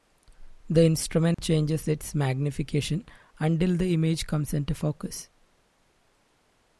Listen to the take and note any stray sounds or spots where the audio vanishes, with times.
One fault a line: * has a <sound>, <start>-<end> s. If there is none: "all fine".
* has a dropout, 1.3-1.4 s